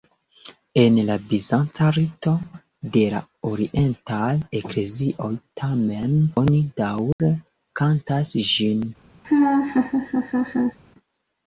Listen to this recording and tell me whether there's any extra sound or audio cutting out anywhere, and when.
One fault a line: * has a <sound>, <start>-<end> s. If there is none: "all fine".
* has a dropout, 7.1-7.2 s
* has a laugh, 9.2-10.8 s